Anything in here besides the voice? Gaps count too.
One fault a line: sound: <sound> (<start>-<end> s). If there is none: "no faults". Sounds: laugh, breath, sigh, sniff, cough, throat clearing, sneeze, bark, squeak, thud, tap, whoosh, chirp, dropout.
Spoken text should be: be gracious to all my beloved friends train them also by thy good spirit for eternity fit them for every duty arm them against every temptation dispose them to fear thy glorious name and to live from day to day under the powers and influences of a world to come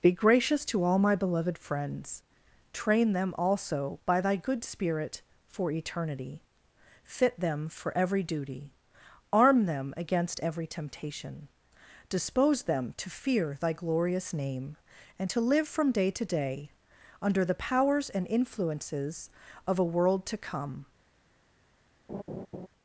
sound: laugh (22.1-22.7 s)